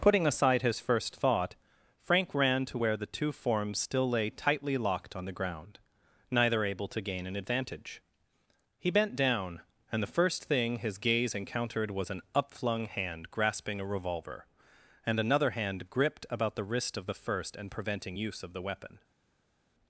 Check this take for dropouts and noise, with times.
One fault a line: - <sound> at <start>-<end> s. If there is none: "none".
none